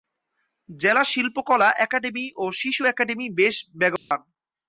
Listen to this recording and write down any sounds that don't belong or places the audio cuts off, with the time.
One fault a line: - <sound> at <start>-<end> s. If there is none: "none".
- dropout at 4.0-4.1 s